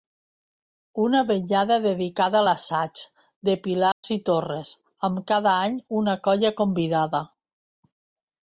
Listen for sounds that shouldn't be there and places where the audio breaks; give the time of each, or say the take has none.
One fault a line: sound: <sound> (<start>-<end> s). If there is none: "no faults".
sound: dropout (3.9-4.0 s)